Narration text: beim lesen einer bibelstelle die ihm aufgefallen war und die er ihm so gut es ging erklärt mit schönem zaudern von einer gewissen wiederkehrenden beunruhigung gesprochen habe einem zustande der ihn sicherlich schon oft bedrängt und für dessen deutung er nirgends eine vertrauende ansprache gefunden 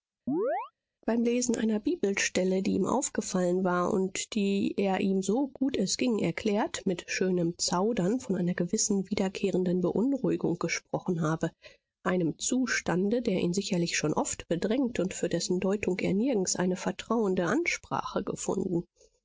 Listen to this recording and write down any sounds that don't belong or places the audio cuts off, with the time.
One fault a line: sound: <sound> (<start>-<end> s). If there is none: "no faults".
sound: chirp (0.3-0.7 s)